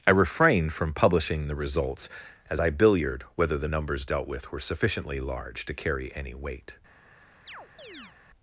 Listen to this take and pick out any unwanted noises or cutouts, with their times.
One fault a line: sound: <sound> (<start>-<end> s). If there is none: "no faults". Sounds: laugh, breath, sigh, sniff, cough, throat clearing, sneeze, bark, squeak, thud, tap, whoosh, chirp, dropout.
sound: chirp (7.5-8.2 s)